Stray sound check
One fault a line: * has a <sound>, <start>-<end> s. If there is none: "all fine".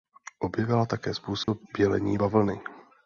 * has a dropout, 1.4-1.5 s